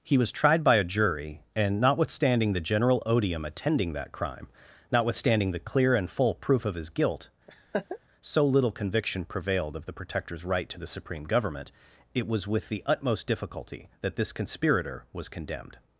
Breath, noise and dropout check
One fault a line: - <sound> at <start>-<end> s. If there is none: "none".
- laugh at 7.5-8.0 s